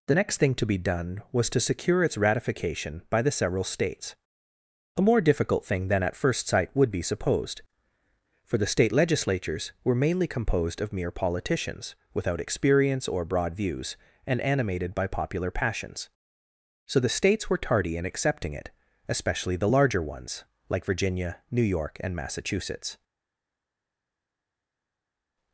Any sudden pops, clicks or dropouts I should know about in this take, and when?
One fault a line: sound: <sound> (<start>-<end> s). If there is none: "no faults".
no faults